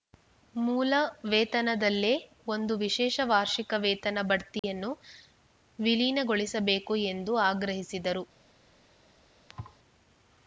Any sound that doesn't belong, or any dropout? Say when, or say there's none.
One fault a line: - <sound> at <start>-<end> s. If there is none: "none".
- dropout at 4.6-4.6 s
- thud at 9.5-9.8 s